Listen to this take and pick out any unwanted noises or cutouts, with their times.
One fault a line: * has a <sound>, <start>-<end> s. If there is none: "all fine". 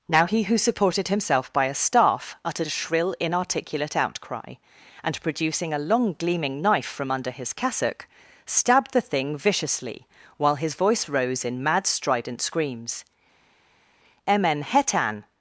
all fine